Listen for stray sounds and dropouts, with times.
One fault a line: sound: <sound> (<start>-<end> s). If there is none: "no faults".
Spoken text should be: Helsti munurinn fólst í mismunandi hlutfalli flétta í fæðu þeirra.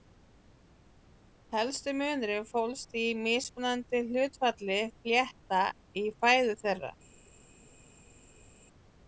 no faults